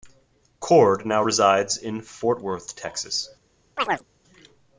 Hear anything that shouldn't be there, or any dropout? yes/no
yes